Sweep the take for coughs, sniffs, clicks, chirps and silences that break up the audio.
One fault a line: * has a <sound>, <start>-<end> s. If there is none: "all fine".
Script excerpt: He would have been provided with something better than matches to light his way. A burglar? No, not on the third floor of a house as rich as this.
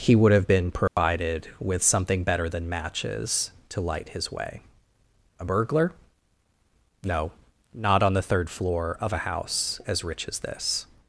* has a dropout, 0.9-1.0 s